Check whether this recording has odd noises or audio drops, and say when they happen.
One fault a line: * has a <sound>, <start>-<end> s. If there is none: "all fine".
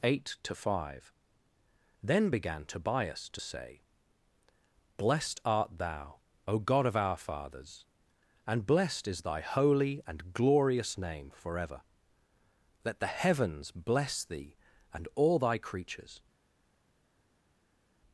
all fine